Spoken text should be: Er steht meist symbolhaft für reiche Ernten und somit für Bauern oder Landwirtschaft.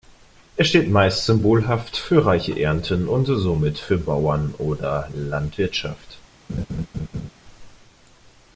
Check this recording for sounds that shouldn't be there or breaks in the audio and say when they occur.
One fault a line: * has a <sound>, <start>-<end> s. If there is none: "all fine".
* has a laugh, 6.5-7.3 s